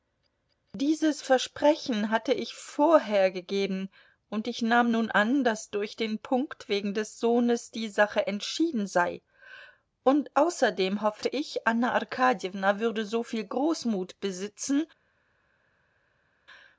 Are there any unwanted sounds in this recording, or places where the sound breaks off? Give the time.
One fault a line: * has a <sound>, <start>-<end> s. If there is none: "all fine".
all fine